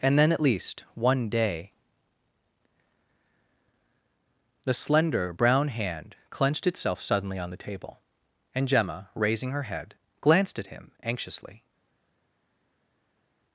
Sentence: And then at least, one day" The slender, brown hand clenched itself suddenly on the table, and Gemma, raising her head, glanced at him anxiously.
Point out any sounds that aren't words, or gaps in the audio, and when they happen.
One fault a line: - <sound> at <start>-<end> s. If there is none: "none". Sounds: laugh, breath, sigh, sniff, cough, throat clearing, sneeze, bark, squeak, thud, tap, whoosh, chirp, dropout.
none